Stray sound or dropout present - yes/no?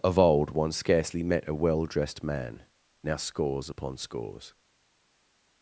no